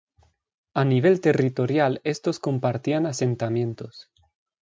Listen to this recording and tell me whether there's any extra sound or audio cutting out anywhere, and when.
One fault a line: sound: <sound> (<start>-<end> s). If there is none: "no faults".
no faults